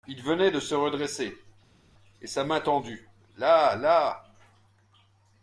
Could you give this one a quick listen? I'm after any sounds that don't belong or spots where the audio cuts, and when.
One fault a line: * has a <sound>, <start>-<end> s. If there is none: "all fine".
all fine